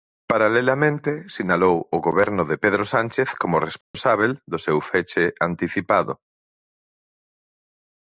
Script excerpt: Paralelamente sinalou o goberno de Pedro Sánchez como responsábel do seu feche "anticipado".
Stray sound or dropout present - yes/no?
yes